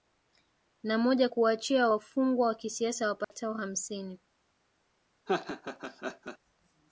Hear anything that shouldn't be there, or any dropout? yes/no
yes